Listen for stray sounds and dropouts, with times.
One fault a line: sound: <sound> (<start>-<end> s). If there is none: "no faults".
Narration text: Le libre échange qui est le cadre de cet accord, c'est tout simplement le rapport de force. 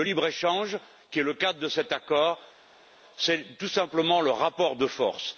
no faults